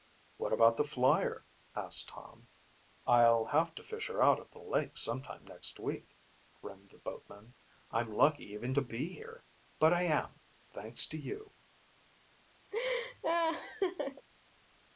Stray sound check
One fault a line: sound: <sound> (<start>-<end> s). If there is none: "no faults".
sound: laugh (12.7-14.3 s)